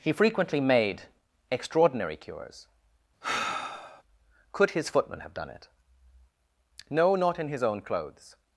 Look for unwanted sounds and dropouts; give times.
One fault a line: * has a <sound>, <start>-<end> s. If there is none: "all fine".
* has a sigh, 3.2-4.0 s